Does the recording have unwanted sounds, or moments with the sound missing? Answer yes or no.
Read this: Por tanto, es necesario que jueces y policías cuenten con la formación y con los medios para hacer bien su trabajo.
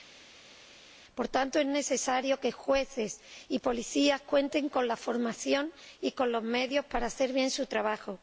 no